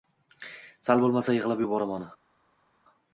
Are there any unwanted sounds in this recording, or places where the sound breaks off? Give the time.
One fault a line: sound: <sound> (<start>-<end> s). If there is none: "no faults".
no faults